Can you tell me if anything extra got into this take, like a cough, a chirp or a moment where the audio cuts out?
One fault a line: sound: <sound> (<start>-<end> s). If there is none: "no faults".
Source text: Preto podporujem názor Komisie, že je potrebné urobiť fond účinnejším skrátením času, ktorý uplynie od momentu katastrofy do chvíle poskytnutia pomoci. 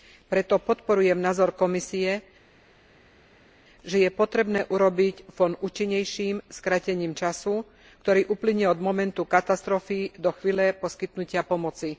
no faults